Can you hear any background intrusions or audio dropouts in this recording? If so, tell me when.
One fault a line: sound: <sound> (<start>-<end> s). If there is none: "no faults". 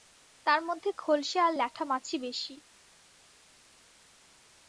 no faults